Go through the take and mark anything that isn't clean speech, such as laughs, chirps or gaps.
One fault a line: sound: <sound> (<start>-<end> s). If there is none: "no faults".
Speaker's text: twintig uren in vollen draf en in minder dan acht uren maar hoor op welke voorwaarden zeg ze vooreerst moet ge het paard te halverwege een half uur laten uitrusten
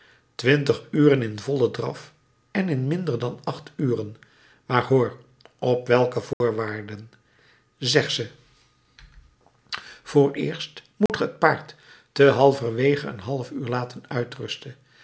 sound: dropout (6.3-6.4 s)
sound: dropout (11.1-11.1 s)